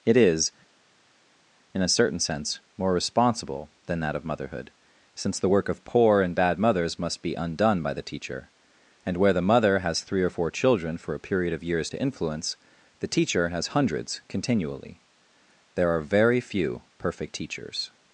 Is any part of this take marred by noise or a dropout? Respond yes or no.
no